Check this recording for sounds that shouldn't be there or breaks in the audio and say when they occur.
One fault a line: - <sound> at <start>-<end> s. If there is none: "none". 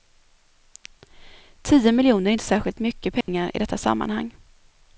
- dropout at 3.2-3.3 s